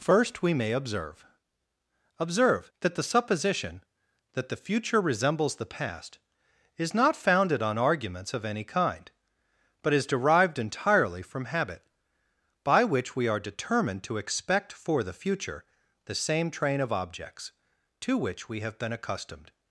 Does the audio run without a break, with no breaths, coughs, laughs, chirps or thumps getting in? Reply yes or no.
yes